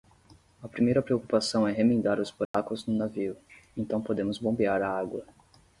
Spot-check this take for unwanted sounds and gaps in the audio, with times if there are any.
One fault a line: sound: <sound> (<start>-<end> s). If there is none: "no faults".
sound: dropout (2.5-2.5 s)